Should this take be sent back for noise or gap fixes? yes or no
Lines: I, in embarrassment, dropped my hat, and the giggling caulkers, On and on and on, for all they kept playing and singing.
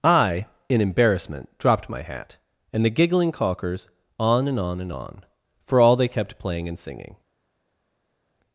no